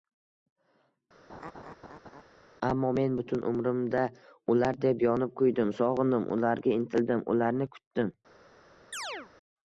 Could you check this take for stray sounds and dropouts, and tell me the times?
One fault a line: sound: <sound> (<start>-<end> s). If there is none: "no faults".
sound: laugh (1.3-2.2 s)
sound: chirp (8.9-9.3 s)